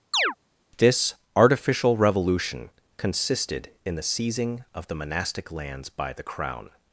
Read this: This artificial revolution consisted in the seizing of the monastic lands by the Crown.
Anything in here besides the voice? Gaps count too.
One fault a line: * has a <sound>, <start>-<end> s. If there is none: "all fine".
* has a chirp, 0.1-0.3 s